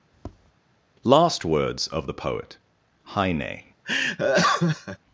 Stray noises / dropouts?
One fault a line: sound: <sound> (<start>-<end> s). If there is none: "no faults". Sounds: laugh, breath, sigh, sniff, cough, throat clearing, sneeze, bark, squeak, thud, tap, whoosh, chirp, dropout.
sound: tap (0.1-0.5 s)
sound: laugh (3.8-5.0 s)